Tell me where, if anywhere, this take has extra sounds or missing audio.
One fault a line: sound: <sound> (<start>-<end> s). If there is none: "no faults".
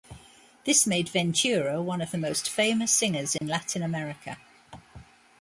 sound: dropout (3.4-3.4 s)